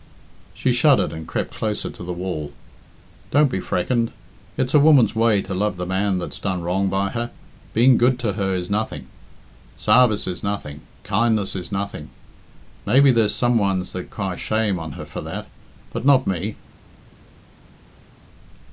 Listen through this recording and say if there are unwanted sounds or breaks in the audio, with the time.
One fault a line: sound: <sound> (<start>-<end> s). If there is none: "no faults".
no faults